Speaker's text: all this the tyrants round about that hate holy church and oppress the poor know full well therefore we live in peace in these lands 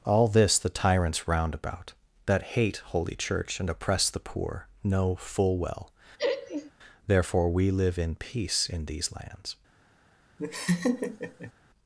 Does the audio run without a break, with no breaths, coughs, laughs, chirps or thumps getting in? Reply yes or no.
no